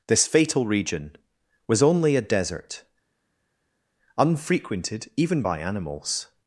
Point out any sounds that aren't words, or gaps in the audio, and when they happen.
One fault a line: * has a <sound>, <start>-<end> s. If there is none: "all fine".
all fine